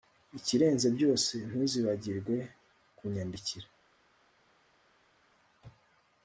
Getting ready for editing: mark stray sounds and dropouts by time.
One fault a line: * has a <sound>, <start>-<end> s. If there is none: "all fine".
all fine